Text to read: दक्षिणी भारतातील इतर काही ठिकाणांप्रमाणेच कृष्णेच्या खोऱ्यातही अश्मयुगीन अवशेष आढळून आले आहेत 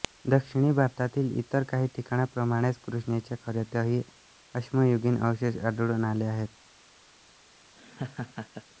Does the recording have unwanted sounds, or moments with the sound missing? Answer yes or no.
yes